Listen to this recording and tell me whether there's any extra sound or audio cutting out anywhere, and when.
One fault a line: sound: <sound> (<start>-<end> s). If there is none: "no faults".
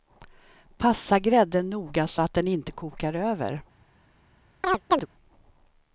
sound: chirp (4.6-5.1 s)